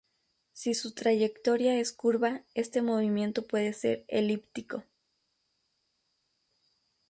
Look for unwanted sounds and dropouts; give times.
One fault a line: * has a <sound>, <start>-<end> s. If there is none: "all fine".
all fine